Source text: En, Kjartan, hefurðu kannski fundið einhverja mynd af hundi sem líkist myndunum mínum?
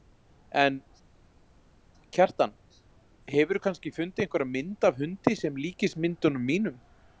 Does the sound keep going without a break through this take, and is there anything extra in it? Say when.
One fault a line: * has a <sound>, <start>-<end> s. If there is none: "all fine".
all fine